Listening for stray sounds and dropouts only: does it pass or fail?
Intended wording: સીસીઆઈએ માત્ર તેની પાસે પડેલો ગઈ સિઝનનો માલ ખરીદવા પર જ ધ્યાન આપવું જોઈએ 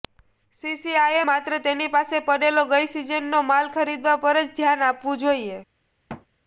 fail